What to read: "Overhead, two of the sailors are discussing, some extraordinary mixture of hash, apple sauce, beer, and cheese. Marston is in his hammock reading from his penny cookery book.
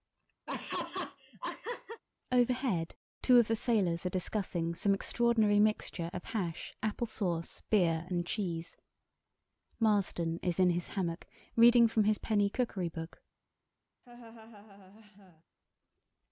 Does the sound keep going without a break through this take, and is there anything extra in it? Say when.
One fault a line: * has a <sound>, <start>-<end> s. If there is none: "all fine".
* has a laugh, 0.5-2.0 s
* has a laugh, 14.0-15.4 s